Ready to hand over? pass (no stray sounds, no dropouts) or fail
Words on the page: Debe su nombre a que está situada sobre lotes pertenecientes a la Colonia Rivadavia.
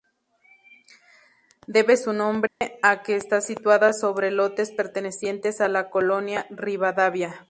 fail